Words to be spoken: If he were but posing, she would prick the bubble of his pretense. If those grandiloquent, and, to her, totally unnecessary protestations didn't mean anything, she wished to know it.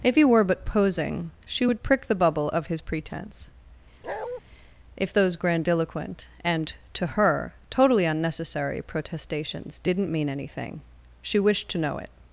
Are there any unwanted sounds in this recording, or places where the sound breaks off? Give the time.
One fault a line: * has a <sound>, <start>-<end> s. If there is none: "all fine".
* has a bark, 4.0-4.4 s